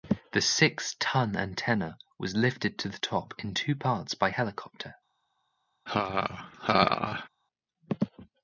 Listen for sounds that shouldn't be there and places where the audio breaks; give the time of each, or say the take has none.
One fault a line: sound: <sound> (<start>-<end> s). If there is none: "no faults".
sound: laugh (5.9-7.3 s)